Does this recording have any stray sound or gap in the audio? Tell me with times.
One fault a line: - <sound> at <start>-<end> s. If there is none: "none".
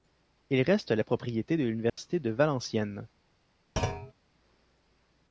- dropout at 1.9-2.0 s
- thud at 3.8-4.1 s